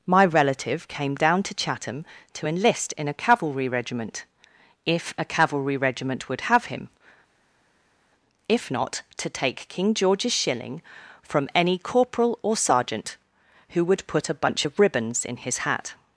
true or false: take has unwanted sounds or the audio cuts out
false